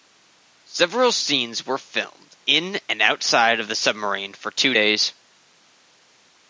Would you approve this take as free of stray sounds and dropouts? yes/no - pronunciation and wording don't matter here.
yes